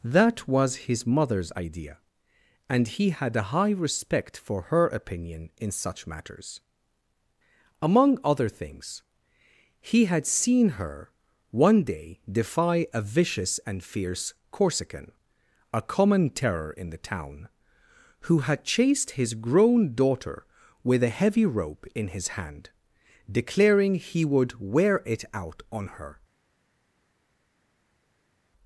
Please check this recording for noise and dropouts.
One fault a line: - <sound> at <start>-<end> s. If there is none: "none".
none